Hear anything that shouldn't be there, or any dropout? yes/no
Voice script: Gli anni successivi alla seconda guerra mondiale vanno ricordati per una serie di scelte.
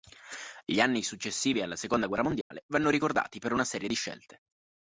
yes